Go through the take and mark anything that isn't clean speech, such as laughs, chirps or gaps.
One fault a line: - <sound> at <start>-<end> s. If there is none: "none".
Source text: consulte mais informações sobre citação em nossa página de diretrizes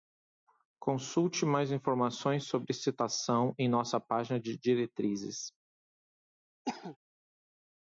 - cough at 6.6-7.0 s